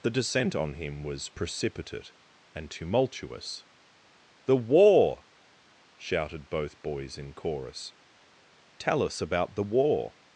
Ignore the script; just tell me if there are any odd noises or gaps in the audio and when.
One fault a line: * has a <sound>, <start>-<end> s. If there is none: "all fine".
all fine